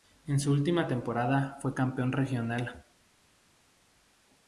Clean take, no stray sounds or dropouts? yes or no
yes